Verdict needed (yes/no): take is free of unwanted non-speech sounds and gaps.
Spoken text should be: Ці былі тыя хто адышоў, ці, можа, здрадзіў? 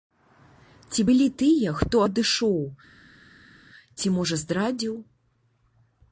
yes